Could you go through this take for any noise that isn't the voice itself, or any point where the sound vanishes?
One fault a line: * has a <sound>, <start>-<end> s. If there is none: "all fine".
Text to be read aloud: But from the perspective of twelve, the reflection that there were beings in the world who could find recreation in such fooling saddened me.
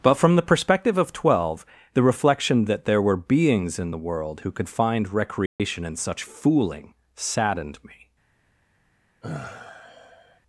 * has a dropout, 5.5-5.6 s
* has a sigh, 9.2-10.4 s